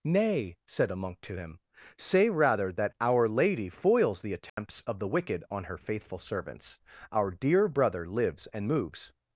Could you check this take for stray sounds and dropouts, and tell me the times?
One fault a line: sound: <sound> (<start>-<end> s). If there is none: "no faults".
sound: dropout (4.5-4.6 s)